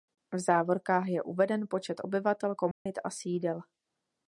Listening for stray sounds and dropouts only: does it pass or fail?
fail